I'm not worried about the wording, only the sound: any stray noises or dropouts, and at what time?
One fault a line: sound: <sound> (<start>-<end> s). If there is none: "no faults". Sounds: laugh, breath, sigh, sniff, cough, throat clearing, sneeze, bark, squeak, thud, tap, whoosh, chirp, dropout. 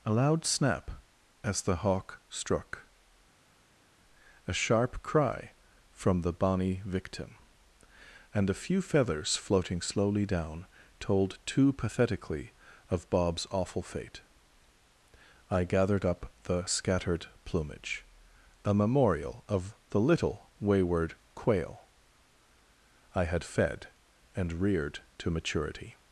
no faults